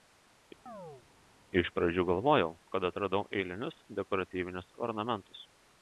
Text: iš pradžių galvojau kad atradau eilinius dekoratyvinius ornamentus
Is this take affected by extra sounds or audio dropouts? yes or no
yes